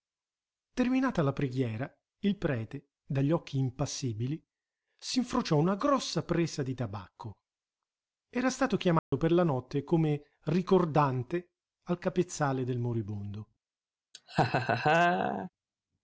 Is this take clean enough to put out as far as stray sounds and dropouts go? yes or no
no